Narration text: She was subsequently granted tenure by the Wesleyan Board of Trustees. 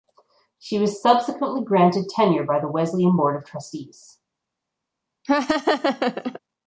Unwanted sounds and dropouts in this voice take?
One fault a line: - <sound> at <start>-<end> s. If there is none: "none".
- laugh at 5.2-6.4 s